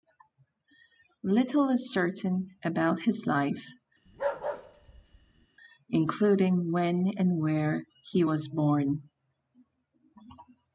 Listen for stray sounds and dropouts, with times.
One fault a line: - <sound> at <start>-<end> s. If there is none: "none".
- bark at 4.1-5.5 s